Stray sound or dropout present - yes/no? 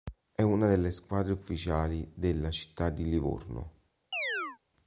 yes